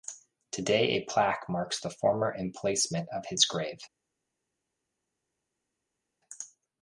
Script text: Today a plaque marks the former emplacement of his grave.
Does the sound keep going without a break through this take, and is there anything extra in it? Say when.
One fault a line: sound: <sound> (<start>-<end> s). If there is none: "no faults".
no faults